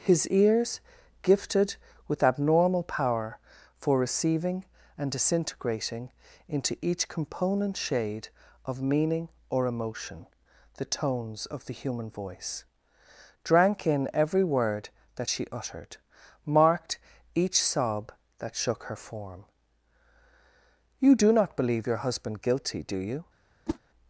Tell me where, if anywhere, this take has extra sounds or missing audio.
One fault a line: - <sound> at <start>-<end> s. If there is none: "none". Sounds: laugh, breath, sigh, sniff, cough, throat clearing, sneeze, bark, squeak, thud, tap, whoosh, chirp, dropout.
- whoosh at 23.7-23.8 s